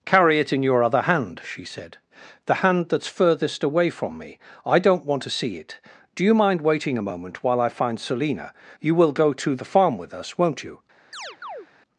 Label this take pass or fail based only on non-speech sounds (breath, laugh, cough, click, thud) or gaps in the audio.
fail